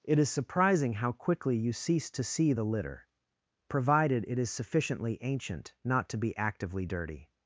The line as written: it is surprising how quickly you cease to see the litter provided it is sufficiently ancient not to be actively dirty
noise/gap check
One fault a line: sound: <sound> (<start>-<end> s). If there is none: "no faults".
no faults